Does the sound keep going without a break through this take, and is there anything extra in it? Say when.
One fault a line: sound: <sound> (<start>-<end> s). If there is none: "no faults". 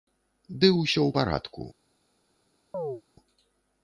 sound: chirp (2.7-3.0 s)